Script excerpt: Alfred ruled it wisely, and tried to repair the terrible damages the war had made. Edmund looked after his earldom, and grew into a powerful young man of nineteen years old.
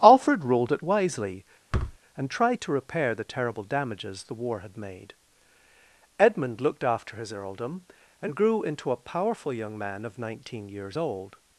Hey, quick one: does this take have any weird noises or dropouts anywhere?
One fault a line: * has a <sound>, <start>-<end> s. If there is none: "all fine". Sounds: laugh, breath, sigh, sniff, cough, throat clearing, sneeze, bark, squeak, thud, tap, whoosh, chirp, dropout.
* has a thud, 1.7-2.0 s